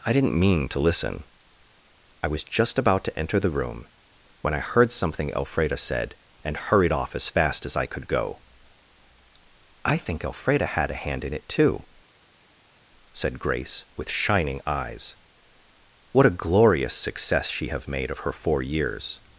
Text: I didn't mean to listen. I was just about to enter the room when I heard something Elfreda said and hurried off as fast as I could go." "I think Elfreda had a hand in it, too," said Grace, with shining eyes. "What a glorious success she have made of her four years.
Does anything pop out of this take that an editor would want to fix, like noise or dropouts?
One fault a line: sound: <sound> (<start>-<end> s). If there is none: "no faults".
no faults